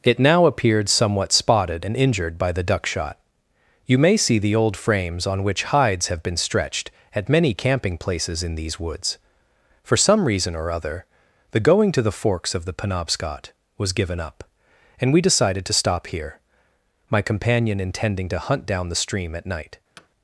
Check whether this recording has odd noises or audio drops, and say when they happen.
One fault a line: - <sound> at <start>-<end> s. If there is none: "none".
- thud at 20.0-20.1 s